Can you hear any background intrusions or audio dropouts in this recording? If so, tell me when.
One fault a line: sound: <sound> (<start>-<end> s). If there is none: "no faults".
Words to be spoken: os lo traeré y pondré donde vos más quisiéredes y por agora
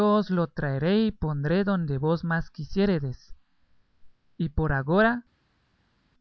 no faults